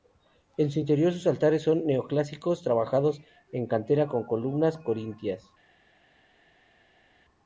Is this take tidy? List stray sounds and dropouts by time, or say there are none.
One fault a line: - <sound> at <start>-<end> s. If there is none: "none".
none